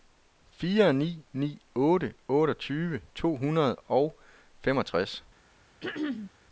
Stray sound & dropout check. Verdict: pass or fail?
fail